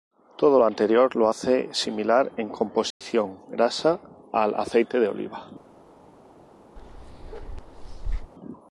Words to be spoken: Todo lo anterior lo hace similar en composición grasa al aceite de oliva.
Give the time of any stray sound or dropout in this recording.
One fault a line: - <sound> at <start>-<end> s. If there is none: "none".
- dropout at 2.9-3.0 s
- bark at 6.8-8.3 s